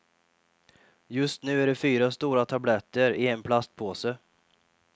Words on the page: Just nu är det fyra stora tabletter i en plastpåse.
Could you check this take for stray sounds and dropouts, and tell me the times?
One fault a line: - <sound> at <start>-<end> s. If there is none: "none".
none